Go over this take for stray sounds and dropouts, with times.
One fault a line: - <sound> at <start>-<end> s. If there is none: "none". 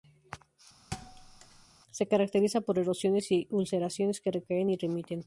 - thud at 0.9-1.7 s